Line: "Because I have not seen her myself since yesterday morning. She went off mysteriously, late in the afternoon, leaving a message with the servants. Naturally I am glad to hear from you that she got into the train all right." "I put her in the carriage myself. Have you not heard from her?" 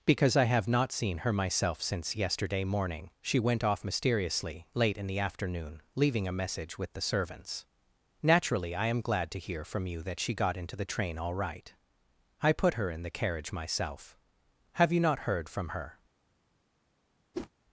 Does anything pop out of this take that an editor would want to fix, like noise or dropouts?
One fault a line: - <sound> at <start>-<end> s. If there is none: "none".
- whoosh at 17.3-17.5 s